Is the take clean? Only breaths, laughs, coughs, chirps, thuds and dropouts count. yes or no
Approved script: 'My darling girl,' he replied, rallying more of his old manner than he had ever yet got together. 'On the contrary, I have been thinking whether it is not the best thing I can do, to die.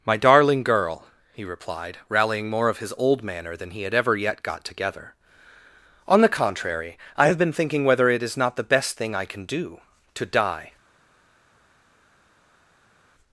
yes